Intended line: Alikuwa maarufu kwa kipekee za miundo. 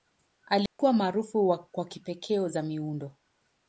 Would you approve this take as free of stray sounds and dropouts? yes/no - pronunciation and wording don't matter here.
no